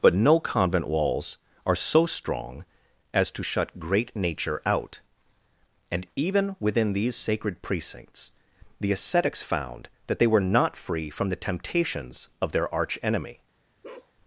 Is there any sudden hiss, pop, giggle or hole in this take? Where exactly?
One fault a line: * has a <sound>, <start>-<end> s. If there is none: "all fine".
* has a bark, 13.8-14.1 s